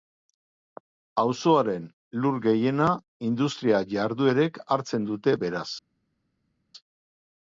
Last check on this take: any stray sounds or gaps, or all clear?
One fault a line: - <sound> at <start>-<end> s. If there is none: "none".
none